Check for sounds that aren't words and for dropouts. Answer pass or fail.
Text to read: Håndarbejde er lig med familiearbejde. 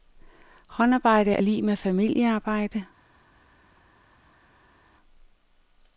pass